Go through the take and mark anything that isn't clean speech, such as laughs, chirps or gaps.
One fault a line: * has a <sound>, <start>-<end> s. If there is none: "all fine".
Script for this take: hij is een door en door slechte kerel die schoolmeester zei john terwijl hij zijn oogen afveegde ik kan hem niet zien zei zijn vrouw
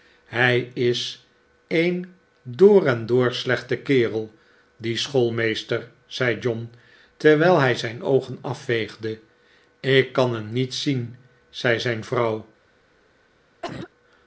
* has a cough, 13.6-13.9 s